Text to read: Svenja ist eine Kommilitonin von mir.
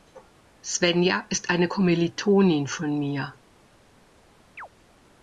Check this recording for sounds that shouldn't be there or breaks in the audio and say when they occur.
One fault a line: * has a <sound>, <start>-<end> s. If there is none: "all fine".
* has a chirp, 4.6-4.7 s